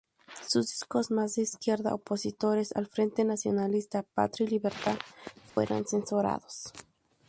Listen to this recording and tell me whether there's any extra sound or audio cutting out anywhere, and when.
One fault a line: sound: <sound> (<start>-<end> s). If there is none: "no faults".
sound: dropout (5.5-5.6 s)